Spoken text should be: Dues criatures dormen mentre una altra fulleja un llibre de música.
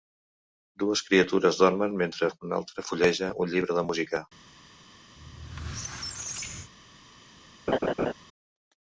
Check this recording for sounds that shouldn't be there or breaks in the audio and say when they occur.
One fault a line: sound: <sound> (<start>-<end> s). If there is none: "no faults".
sound: squeak (5.2-6.7 s)
sound: laugh (7.7-8.1 s)